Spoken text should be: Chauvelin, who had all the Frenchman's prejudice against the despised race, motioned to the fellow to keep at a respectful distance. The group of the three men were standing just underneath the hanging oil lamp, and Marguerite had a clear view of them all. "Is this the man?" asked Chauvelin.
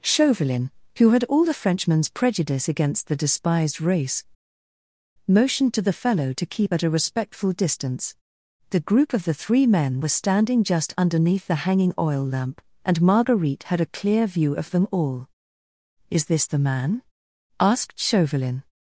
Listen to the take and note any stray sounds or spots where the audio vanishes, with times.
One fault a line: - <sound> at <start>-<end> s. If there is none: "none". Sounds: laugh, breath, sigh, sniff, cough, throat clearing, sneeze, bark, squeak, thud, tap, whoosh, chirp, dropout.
none